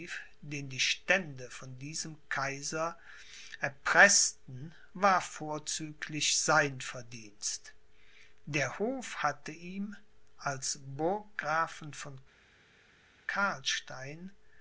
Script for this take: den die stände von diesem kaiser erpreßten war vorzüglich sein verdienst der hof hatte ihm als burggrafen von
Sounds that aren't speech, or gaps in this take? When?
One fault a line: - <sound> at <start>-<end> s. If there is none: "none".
none